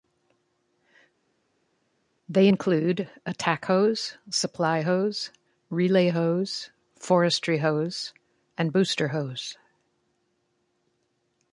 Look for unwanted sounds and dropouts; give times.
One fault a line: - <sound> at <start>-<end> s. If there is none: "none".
none